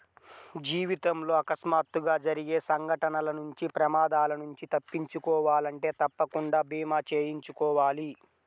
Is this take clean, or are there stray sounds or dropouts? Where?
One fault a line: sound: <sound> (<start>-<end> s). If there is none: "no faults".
no faults